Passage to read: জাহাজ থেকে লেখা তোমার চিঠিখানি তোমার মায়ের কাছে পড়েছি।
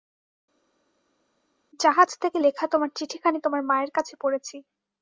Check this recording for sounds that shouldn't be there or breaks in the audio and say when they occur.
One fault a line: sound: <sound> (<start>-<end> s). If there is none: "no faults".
no faults